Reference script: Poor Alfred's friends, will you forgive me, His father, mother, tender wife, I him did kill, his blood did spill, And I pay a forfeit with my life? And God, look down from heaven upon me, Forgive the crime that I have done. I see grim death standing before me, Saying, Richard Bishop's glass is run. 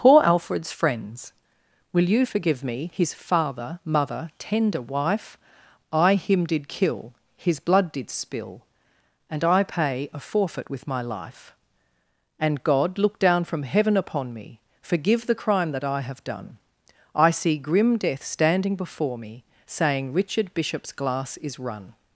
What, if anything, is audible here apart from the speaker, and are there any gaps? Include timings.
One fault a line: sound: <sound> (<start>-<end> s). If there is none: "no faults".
no faults